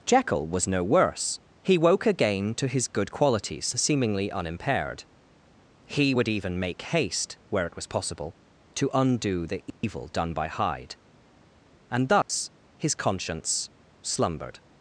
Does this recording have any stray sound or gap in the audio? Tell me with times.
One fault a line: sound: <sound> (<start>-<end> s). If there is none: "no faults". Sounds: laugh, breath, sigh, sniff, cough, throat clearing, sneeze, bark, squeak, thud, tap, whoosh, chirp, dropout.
sound: dropout (9.7-9.8 s)
sound: dropout (12.2-12.3 s)